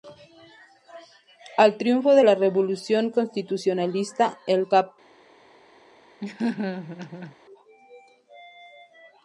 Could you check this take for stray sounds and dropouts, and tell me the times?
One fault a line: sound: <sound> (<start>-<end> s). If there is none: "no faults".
sound: laugh (6.2-7.4 s)